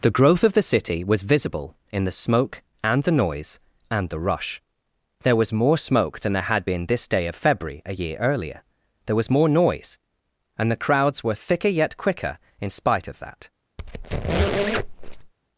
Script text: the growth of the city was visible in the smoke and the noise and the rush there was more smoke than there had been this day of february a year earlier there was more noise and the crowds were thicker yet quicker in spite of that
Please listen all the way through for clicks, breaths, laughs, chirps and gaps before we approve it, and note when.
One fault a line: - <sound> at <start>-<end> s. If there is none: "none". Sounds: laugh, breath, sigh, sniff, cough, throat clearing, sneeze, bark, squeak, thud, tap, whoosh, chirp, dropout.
- squeak at 13.8-15.3 s